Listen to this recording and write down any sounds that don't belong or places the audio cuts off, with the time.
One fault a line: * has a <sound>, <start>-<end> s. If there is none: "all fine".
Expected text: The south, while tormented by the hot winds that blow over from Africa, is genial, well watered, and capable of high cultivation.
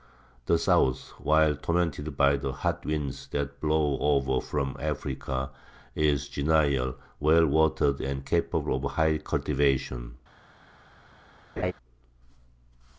* has a laugh, 11.6-11.7 s